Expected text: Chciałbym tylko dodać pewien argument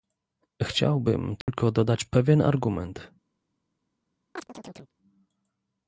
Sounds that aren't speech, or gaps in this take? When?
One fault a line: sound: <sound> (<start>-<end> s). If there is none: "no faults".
sound: dropout (1.4-1.5 s)
sound: chirp (4.4-4.9 s)